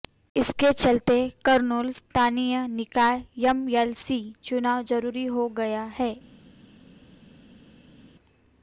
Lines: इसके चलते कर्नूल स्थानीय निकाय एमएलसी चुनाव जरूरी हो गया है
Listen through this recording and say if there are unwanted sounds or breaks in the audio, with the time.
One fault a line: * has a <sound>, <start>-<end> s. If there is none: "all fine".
all fine